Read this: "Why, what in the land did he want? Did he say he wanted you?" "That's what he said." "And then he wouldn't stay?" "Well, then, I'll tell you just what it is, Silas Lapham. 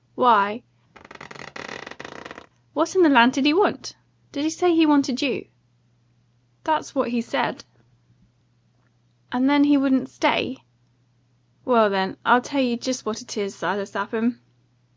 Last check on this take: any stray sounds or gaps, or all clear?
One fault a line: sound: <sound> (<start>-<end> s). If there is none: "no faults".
sound: squeak (0.9-2.5 s)